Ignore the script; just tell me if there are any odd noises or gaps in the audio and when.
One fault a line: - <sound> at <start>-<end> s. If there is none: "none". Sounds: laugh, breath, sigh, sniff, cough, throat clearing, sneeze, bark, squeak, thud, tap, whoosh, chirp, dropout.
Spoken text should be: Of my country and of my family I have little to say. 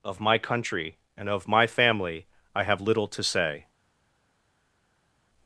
none